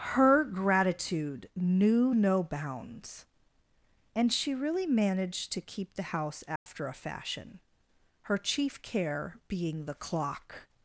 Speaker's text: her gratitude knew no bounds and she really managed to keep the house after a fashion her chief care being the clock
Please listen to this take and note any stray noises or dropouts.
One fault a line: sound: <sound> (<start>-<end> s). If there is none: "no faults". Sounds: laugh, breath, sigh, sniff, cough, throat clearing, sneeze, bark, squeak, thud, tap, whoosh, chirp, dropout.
sound: dropout (6.6-6.7 s)